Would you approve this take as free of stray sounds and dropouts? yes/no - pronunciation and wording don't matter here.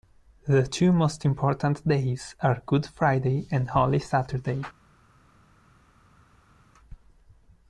yes